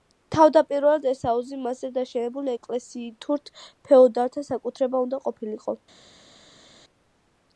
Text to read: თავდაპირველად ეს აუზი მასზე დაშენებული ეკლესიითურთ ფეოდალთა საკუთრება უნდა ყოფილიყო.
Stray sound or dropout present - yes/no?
no